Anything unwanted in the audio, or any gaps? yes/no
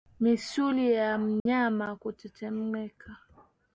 yes